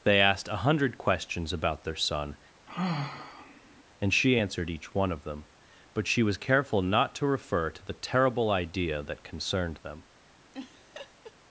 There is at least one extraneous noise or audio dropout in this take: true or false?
true